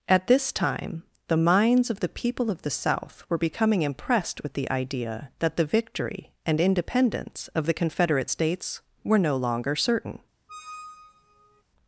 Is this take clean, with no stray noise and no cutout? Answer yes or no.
no